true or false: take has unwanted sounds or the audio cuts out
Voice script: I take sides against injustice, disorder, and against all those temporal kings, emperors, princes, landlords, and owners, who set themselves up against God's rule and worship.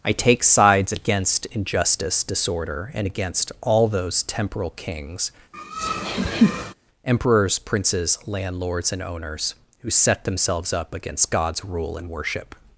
true